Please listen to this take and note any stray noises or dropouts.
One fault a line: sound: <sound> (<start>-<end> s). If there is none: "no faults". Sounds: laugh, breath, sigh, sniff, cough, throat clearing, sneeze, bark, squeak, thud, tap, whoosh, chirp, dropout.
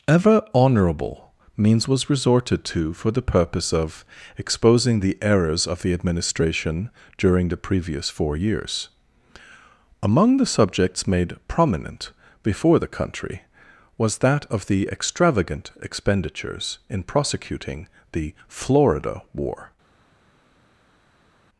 no faults